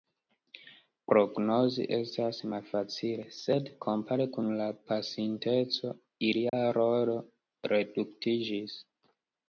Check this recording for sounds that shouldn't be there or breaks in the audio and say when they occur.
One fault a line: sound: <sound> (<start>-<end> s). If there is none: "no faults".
sound: dropout (6.5-6.5 s)